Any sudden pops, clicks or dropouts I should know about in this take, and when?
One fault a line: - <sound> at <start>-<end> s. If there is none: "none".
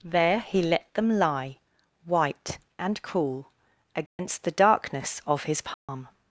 - dropout at 4.1-4.2 s
- dropout at 5.7-5.9 s